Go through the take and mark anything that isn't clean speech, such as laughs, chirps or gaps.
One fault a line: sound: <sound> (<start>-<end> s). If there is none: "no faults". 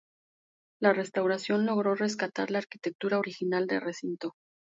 no faults